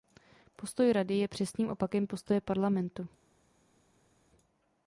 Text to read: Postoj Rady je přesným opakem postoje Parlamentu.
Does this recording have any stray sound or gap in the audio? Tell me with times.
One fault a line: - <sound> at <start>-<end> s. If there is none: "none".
none